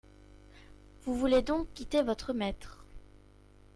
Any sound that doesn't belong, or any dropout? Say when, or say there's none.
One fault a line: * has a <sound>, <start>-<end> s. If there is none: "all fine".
all fine